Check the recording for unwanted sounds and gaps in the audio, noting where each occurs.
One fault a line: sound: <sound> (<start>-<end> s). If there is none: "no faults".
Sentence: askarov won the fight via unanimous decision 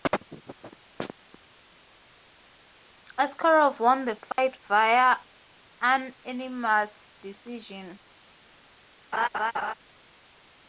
sound: dropout (4.3-4.4 s)
sound: laugh (9.1-9.7 s)